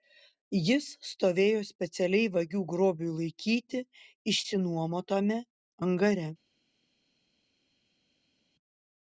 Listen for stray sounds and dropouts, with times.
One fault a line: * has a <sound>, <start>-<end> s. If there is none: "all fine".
all fine